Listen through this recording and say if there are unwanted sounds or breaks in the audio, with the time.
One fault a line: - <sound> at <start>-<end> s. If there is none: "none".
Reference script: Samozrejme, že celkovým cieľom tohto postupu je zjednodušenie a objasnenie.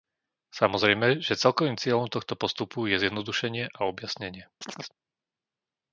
- chirp at 4.6-4.9 s